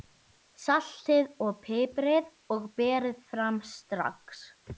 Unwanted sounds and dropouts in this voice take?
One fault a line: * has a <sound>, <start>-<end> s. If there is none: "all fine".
all fine